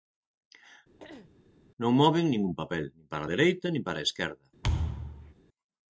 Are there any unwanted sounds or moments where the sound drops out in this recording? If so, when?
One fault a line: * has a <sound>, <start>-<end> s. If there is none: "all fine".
* has a throat clearing, 1.0-1.3 s
* has a thud, 4.6-5.3 s